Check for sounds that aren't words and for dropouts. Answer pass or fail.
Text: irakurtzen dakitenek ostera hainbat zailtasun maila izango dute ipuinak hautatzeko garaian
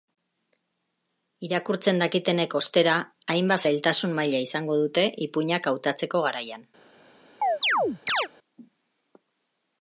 fail